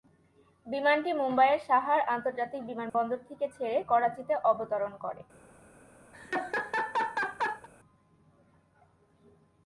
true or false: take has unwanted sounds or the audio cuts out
true